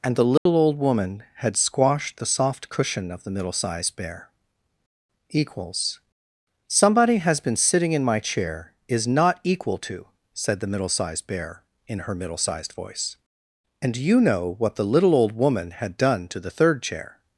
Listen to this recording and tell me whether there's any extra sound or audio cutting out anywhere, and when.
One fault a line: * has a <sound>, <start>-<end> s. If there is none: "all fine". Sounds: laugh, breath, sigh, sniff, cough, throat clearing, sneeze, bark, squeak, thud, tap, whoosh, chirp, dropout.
* has a dropout, 0.4-0.5 s